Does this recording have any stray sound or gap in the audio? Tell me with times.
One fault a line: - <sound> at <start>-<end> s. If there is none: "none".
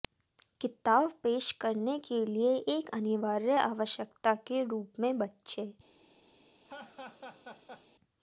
- laugh at 6.7-7.9 s